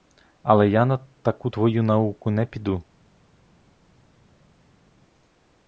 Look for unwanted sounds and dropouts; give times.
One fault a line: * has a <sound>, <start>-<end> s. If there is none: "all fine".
all fine